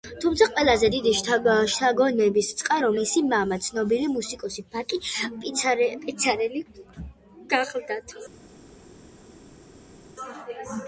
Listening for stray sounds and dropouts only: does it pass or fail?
pass